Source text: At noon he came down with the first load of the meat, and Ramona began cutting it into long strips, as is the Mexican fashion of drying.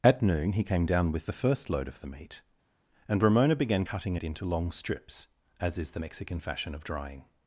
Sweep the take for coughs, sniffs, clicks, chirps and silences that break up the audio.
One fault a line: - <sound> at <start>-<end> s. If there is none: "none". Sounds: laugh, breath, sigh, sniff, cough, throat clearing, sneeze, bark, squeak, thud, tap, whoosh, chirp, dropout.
none